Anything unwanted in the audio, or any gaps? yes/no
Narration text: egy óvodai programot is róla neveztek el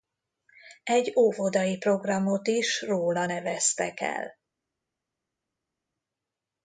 no